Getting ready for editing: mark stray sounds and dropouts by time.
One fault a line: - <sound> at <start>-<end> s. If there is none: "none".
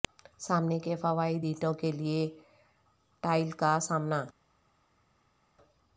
none